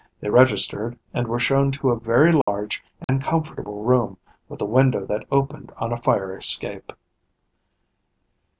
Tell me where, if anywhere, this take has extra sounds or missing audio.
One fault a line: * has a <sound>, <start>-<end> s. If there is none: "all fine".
* has a dropout, 2.4-2.5 s
* has a dropout, 3.0-3.1 s